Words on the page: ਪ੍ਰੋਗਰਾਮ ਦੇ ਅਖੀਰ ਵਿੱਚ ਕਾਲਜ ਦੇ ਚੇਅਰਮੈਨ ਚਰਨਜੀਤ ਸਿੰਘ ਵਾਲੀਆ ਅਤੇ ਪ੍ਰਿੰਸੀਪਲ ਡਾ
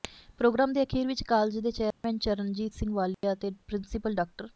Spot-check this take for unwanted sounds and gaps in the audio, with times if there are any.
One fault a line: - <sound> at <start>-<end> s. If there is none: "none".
- dropout at 1.9-2.0 s
- dropout at 3.1-3.2 s